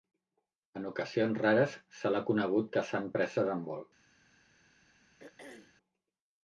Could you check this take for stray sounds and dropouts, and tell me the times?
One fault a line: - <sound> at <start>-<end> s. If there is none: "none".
- throat clearing at 5.2-5.8 s